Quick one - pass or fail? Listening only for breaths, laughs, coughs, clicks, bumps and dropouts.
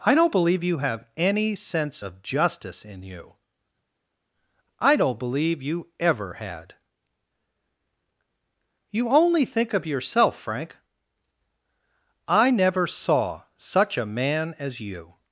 pass